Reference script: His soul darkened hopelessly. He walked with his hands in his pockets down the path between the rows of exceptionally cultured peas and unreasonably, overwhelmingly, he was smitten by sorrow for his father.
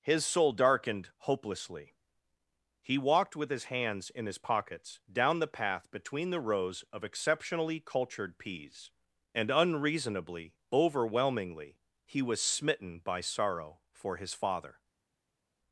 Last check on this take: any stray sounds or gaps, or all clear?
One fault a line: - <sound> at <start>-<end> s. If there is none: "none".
none